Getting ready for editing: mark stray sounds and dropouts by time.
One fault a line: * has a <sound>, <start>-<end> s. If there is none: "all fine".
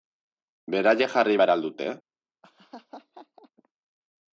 * has a laugh, 2.4-3.5 s